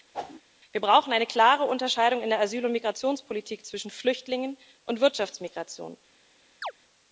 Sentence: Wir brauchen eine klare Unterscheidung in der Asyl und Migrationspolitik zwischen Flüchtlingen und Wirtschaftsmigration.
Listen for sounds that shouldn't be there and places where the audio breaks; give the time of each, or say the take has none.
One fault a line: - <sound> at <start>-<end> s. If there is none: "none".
- whoosh at 0.1-0.4 s
- chirp at 6.6-6.7 s